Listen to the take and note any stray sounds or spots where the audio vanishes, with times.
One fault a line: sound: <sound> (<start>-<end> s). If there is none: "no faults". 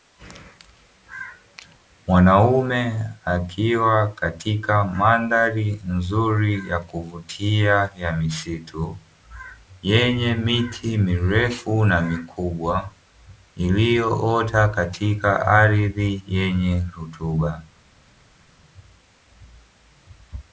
no faults